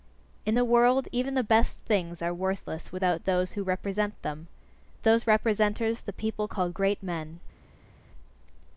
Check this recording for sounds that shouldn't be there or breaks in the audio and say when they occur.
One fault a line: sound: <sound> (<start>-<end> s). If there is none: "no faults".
no faults